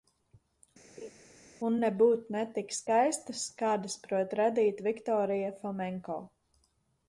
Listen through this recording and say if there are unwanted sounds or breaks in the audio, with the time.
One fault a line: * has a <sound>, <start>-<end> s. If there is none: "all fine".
* has a laugh, 1.0-1.1 s